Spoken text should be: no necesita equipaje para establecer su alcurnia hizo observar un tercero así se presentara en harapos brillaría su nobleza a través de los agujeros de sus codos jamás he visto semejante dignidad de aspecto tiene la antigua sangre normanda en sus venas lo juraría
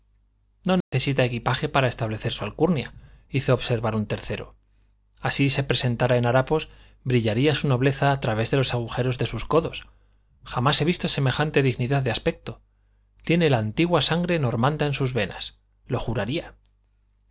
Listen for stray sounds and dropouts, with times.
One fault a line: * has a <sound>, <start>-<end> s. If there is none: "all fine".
* has a dropout, 0.8-0.9 s